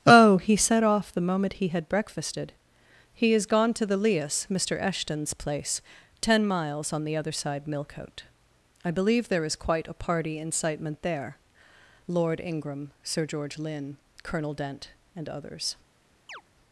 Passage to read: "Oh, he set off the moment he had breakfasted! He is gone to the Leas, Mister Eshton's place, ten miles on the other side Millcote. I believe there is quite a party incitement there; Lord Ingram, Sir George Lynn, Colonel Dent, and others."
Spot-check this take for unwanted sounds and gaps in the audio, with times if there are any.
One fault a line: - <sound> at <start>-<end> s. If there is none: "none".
- chirp at 16.3-16.4 s